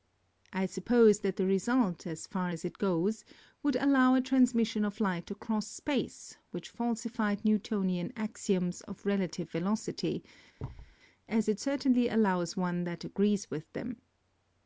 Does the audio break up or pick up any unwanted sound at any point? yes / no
yes